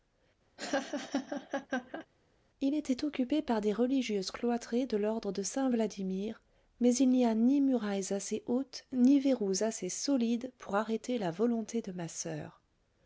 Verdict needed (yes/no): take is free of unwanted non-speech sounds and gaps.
no